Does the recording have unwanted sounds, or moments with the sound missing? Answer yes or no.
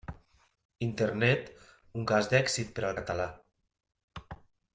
no